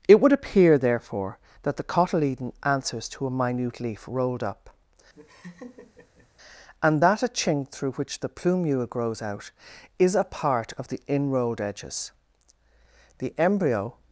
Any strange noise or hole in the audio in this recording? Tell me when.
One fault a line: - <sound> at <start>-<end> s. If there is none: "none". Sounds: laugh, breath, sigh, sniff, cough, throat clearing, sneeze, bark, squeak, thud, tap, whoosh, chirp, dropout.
- laugh at 5.1-6.3 s